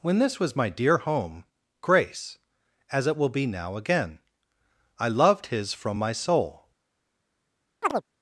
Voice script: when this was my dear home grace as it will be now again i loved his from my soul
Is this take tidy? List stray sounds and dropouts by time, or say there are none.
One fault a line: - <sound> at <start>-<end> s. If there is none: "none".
- chirp at 7.8-8.0 s